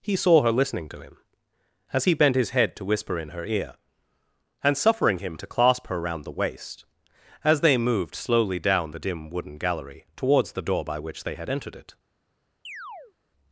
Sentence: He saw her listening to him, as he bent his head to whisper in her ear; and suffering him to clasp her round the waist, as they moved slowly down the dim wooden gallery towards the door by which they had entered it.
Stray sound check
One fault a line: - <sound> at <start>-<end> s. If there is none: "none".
- chirp at 12.6-13.1 s